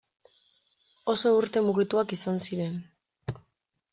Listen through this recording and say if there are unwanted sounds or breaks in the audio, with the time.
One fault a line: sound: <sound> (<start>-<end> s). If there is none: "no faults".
no faults